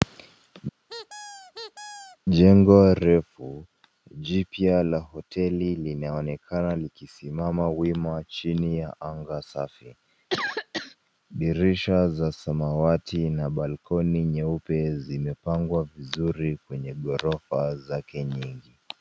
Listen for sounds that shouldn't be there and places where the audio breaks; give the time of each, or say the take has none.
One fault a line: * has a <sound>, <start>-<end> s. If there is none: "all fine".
* has a squeak, 0.9-2.2 s
* has a cough, 10.3-11.0 s